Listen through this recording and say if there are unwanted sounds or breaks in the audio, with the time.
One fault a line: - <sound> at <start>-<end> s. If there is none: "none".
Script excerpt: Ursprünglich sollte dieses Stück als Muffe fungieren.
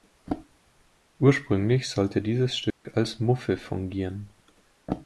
- dropout at 2.7-2.8 s